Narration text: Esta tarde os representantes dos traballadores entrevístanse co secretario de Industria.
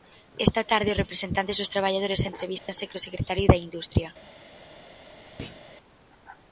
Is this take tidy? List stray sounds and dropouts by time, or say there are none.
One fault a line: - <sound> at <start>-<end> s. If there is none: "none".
- dropout at 2.6-2.7 s
- thud at 5.4-5.7 s